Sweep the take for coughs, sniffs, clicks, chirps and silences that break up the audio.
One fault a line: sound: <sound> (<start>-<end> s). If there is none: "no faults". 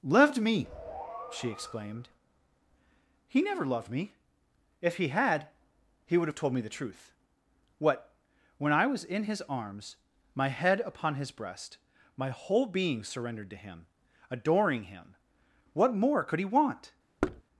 sound: thud (17.2-17.4 s)